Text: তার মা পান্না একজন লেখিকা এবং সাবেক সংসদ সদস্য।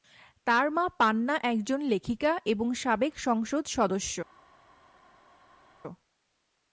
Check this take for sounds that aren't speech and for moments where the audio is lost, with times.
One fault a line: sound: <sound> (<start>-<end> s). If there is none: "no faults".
no faults